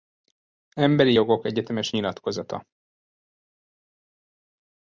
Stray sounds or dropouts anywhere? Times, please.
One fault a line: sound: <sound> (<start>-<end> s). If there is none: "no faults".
no faults